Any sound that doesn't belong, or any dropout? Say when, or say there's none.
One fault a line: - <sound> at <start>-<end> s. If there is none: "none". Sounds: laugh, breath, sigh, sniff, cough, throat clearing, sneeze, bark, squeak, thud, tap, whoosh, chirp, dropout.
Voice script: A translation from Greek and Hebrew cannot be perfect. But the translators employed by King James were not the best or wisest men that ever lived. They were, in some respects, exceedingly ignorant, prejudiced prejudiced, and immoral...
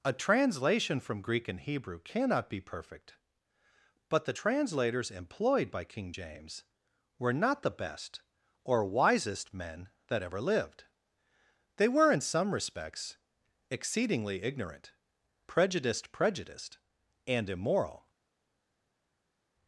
none